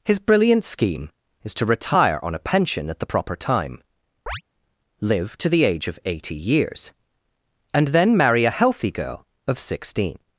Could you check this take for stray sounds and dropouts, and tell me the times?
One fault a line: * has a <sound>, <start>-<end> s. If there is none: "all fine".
* has a chirp, 4.3-4.4 s